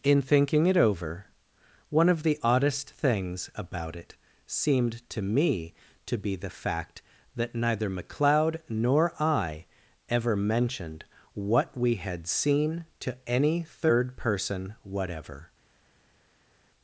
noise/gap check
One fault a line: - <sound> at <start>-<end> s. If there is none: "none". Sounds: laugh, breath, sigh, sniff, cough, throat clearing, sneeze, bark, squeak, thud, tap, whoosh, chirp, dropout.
none